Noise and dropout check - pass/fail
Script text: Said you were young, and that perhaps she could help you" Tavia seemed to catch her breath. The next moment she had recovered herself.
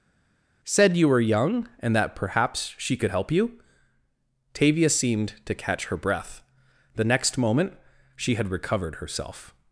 pass